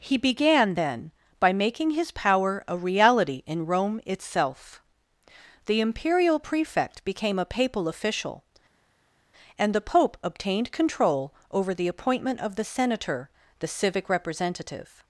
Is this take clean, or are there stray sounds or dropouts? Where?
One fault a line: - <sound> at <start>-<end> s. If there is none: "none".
none